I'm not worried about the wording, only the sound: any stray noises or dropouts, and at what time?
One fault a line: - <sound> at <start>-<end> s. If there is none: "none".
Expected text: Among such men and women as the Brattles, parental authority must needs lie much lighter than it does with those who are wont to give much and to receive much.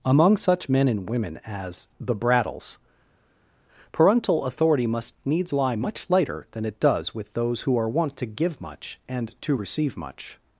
none